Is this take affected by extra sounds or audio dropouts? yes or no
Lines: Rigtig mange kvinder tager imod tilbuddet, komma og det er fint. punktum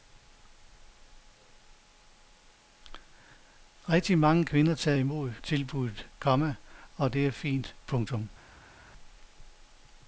no